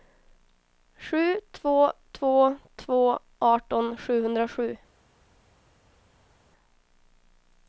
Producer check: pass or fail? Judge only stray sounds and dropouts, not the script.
pass